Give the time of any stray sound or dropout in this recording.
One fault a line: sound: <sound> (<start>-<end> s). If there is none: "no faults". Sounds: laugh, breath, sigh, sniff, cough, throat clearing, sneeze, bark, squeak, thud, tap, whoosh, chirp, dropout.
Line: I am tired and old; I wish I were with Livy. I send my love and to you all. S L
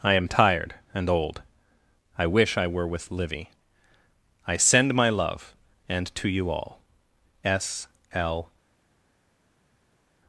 no faults